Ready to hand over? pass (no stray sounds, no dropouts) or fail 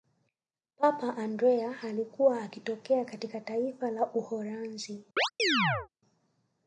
fail